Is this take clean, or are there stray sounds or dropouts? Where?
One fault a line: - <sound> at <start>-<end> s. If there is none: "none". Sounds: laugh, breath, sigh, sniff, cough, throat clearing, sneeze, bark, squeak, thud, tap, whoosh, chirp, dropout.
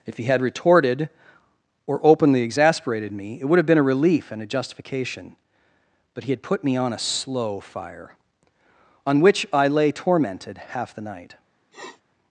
- sniff at 11.7-12.0 s